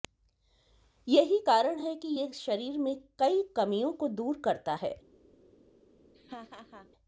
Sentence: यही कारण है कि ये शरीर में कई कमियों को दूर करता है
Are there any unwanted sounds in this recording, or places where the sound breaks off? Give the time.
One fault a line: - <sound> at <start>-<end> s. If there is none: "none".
- laugh at 6.1-6.9 s